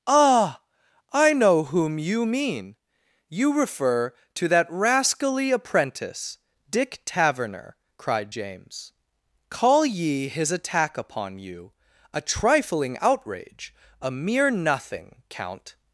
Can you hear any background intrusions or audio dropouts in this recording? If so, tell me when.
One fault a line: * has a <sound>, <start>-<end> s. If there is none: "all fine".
all fine